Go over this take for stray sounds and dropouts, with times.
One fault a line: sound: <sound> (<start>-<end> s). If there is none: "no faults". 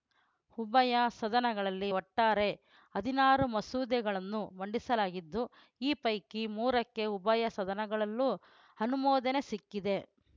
no faults